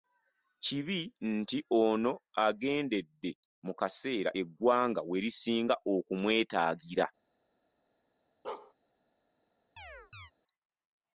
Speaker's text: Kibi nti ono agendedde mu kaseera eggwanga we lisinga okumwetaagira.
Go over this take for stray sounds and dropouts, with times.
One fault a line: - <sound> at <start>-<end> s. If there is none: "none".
- bark at 8.4-8.7 s
- chirp at 9.8-10.3 s